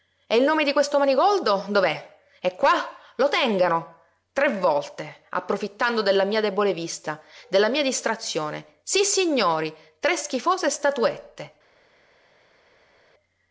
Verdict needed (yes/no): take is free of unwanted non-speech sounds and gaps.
yes